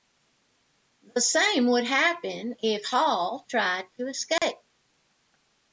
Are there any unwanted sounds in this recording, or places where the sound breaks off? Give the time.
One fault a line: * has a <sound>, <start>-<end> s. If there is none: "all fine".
* has a dropout, 4.4-4.4 s